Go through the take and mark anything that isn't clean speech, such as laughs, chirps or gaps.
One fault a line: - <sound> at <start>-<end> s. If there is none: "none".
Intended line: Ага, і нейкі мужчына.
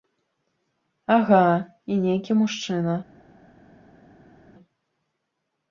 none